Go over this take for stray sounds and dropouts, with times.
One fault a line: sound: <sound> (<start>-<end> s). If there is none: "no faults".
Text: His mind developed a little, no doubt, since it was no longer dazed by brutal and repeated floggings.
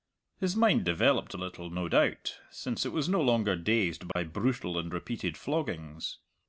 sound: dropout (4.1-4.2 s)